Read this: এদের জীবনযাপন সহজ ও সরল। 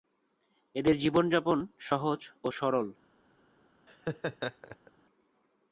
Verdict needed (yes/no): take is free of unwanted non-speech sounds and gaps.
no